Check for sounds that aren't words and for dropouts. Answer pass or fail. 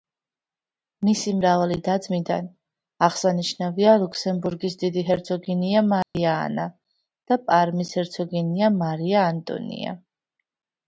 fail